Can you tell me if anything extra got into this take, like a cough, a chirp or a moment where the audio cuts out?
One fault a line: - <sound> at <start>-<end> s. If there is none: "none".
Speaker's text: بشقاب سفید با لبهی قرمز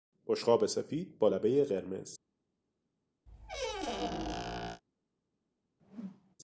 - squeak at 3.3-4.8 s
- whoosh at 5.8-6.4 s